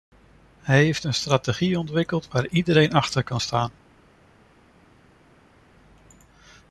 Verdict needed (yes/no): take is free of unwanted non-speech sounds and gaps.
yes